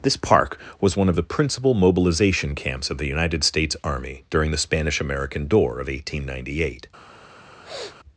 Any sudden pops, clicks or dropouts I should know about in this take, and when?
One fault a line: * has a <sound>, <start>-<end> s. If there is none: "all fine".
* has a sniff, 7.6-8.0 s